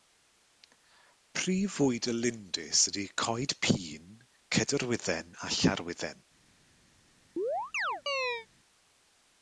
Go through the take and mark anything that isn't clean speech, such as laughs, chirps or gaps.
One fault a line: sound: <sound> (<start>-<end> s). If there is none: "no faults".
sound: chirp (7.4-8.5 s)